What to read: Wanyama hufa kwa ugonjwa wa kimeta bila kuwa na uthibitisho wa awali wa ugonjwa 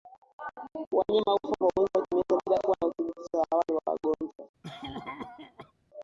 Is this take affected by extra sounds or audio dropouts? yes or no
yes